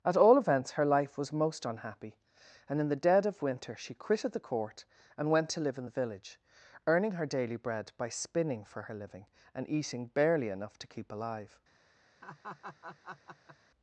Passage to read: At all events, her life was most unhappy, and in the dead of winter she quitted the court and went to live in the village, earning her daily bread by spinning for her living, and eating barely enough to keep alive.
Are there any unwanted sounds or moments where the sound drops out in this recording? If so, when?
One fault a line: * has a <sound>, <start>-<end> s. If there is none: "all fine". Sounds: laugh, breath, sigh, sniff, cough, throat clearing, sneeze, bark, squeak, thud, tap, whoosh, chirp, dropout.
* has a laugh, 12.2-13.6 s